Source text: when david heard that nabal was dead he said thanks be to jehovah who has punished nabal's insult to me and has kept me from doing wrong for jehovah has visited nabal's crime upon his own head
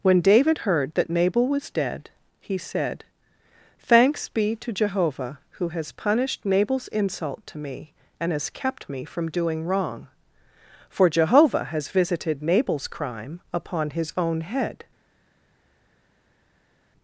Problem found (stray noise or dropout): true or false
false